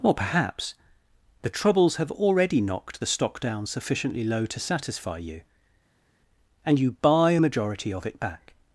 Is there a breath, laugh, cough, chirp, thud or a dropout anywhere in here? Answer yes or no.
no